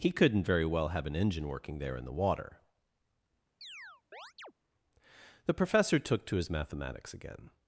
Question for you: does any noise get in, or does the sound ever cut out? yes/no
yes